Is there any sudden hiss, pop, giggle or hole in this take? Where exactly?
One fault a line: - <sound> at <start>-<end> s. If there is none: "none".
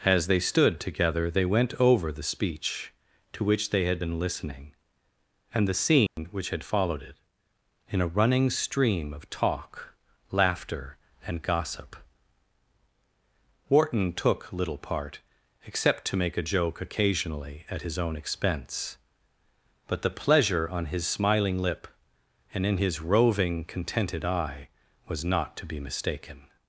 - dropout at 6.1-6.2 s